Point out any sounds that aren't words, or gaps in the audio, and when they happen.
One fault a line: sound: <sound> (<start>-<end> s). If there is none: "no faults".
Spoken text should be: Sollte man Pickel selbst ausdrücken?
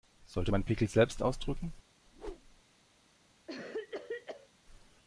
sound: whoosh (2.1-2.6 s)
sound: cough (3.5-4.5 s)